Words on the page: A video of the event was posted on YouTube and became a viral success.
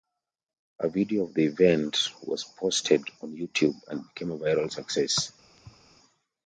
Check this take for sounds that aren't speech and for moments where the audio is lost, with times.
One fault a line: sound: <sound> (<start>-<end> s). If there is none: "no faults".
sound: thud (5.6-5.9 s)